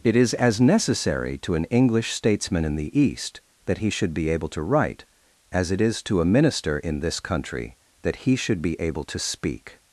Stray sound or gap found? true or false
false